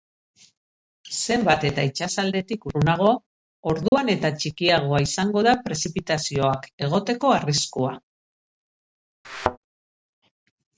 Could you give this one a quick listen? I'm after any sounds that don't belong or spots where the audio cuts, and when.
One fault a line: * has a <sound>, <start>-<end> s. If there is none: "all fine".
* has a dropout, 3.9-3.9 s
* has a thud, 9.2-9.6 s